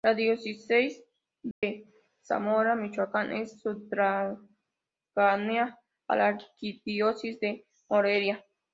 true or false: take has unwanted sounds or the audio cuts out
true